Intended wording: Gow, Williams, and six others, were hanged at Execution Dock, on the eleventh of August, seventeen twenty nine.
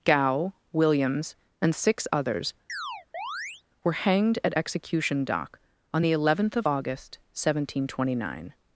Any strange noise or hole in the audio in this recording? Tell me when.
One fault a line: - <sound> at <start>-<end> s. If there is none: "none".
- chirp at 2.7-3.6 s